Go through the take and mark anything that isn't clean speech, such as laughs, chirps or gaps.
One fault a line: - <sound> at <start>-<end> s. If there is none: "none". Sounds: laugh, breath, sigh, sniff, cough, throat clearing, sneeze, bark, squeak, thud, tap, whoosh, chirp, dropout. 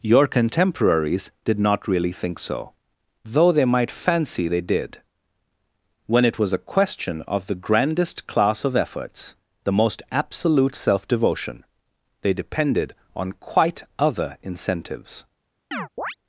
- chirp at 15.7-16.2 s